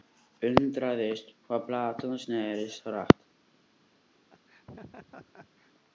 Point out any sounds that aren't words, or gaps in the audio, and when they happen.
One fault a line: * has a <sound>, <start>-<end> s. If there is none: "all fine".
* has a laugh, 4.3-5.7 s